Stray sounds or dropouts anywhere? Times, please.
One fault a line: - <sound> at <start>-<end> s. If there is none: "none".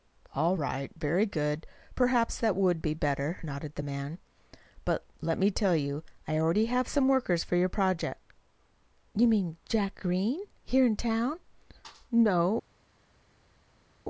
none